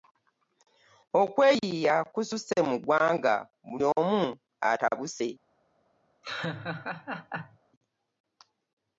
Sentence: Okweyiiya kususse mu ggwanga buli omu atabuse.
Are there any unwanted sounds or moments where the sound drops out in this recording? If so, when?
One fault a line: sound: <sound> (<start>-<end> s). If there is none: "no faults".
sound: laugh (6.2-7.6 s)